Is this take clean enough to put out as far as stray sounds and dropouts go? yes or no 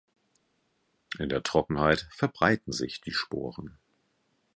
yes